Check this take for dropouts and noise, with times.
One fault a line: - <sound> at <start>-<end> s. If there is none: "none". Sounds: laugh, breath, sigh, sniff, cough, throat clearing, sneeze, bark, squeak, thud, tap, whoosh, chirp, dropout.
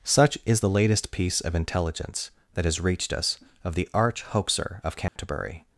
- dropout at 5.1-5.2 s